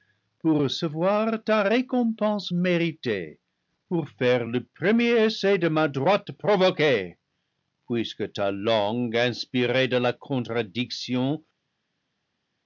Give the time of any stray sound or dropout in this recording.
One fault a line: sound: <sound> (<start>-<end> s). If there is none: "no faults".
no faults